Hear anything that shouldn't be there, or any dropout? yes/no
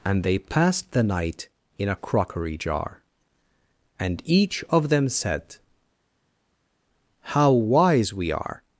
no